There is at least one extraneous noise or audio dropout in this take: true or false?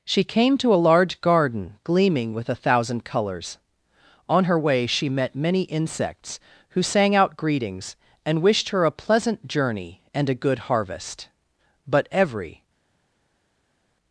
false